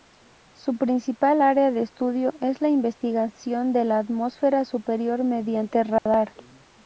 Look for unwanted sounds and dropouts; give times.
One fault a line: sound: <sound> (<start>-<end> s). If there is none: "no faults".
sound: dropout (6.0-6.1 s)